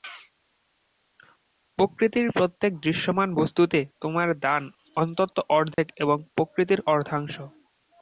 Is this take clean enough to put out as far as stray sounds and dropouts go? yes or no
no